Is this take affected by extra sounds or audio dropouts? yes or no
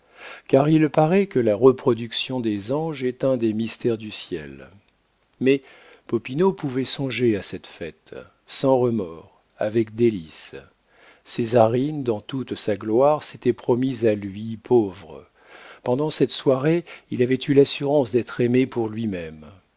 no